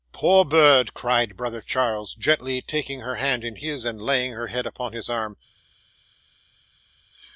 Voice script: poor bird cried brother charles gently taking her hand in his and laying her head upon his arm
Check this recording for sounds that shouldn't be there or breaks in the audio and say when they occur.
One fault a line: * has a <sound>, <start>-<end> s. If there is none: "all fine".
all fine